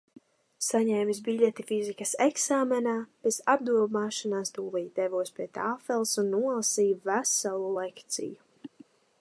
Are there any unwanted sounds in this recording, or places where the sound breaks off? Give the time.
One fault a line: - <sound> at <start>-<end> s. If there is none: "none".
none